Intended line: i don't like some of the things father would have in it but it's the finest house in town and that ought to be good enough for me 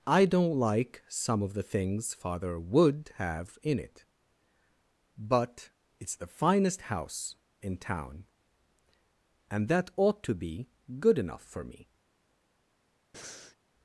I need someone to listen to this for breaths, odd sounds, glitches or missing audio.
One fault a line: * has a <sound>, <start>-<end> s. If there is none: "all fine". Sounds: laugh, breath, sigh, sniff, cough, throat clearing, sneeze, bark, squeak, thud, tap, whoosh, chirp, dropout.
* has a breath, 13.1-13.6 s